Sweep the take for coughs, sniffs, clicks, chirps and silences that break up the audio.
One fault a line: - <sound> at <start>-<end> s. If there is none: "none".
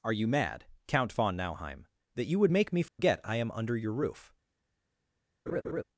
- dropout at 2.9-3.0 s
- laugh at 5.5-5.8 s